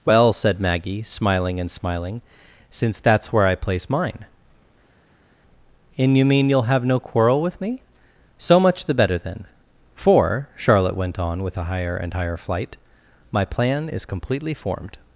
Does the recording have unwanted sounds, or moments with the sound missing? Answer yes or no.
no